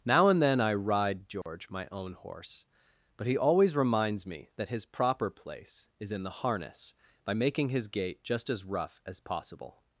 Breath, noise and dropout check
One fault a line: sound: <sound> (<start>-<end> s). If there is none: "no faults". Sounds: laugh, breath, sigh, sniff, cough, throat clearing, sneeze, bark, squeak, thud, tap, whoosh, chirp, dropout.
sound: dropout (1.4-1.5 s)